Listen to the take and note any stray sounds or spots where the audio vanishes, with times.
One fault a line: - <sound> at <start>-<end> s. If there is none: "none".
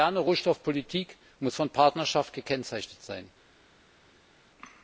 none